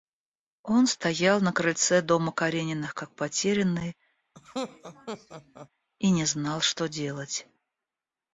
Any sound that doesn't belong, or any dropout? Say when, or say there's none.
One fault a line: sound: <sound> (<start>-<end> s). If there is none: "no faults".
sound: laugh (4.3-5.7 s)